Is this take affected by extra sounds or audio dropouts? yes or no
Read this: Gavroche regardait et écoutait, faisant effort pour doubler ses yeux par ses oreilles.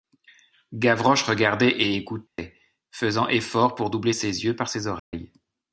yes